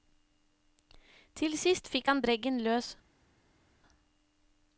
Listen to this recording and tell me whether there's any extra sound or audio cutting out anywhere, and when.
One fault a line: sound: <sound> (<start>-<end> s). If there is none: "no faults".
no faults